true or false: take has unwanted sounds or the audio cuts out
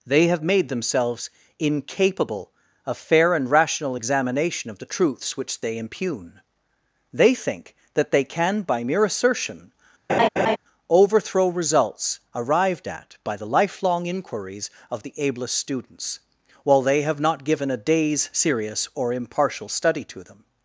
true